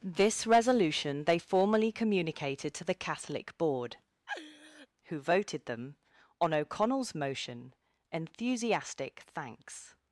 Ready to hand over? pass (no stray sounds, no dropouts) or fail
fail